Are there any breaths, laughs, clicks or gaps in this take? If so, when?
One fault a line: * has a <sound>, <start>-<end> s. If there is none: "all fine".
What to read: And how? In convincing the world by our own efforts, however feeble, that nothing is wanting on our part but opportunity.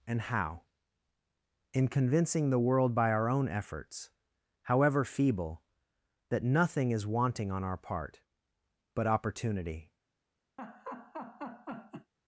* has a laugh, 10.6-12.1 s